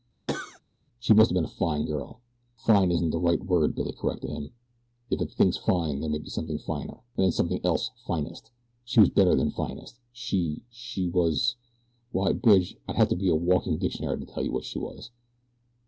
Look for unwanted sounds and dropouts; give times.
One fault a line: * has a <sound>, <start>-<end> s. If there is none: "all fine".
* has a cough, 0.3-0.6 s